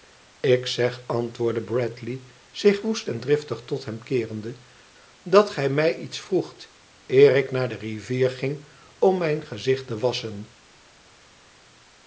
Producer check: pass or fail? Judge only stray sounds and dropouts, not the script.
pass